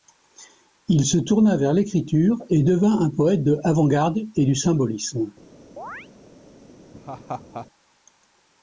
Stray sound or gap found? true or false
true